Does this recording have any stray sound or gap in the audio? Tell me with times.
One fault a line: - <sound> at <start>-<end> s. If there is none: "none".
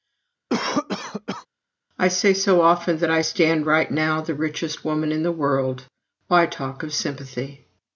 - cough at 0.5-1.5 s